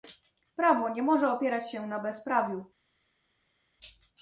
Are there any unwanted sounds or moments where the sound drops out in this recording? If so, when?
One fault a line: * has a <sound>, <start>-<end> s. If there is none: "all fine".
all fine